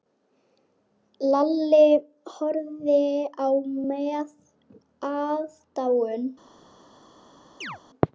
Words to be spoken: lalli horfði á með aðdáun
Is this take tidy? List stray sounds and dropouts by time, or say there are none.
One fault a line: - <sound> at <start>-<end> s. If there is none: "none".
- chirp at 7.6-7.8 s